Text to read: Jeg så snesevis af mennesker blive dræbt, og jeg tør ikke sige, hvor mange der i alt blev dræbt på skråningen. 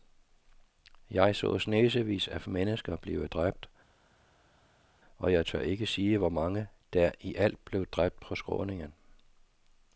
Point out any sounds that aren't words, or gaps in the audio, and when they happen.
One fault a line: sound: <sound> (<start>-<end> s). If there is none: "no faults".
no faults